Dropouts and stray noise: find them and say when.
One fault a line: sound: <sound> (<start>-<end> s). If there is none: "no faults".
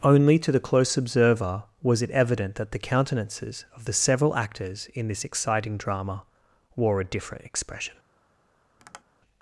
sound: tap (8.8-9.0 s)